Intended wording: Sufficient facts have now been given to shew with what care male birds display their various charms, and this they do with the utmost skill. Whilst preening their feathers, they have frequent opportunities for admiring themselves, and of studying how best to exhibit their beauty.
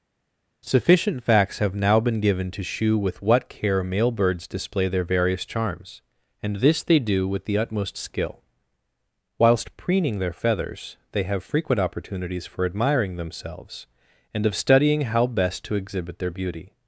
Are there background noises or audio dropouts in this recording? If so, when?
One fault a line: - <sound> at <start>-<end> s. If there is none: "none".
none